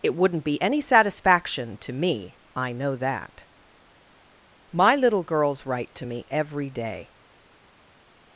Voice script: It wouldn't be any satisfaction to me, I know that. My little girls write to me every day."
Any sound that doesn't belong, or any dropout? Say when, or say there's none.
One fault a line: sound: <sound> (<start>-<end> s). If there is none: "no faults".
no faults